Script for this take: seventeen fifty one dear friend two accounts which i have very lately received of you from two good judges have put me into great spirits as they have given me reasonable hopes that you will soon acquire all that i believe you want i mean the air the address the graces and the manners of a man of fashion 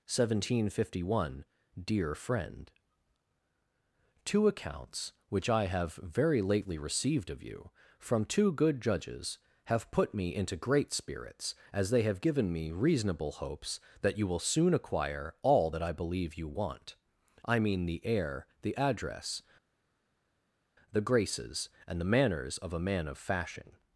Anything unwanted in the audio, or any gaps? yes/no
no